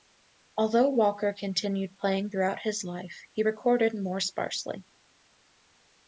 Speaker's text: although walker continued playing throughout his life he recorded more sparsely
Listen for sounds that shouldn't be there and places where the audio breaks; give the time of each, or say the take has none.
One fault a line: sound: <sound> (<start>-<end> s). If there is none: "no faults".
no faults